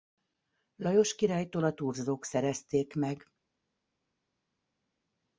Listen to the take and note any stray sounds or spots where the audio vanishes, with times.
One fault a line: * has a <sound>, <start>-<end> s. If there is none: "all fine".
all fine